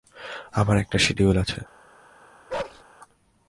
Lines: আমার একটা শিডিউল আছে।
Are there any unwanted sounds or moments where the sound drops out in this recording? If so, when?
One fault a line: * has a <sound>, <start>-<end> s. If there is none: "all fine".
* has a bark, 2.5-2.8 s